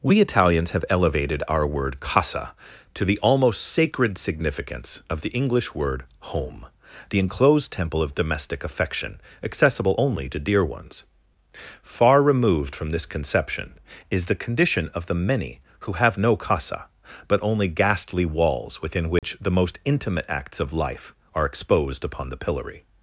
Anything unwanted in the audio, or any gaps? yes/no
yes